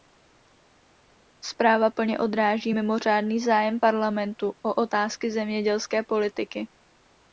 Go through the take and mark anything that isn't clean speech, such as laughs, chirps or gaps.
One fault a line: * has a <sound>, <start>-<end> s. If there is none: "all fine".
all fine